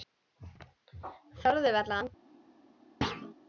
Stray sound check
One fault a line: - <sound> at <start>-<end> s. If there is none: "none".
- thud at 3.0-3.3 s